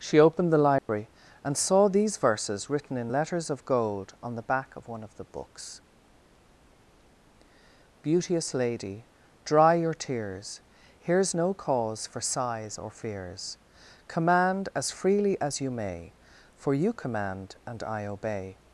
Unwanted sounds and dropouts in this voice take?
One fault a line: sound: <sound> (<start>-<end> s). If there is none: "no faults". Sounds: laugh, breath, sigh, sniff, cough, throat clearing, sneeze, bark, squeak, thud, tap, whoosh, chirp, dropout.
sound: dropout (0.8-0.9 s)